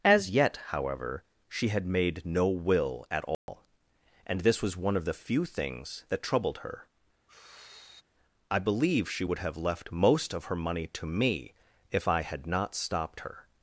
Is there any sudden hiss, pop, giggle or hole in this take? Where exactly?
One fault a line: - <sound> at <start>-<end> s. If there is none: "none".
- dropout at 3.3-3.5 s
- sigh at 7.3-8.0 s